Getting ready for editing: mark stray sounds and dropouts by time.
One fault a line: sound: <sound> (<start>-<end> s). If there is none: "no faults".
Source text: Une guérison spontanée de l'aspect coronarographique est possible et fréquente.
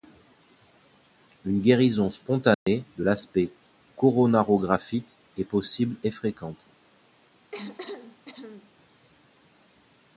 sound: dropout (2.5-2.7 s)
sound: cough (7.5-8.7 s)